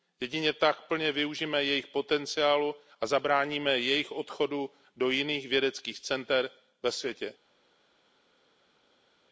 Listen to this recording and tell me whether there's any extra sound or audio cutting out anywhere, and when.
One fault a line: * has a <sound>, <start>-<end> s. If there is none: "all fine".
all fine